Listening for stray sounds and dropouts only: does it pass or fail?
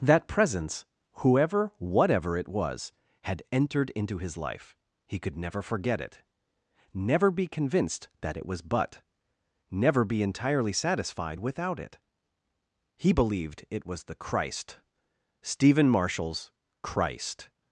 pass